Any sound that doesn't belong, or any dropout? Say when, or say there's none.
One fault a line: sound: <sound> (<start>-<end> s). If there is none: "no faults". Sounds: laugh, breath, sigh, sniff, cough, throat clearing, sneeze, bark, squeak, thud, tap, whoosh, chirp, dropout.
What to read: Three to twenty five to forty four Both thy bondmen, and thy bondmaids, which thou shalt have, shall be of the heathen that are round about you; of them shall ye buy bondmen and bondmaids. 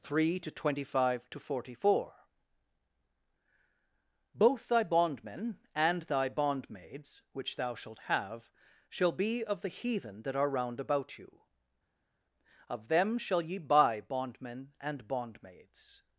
no faults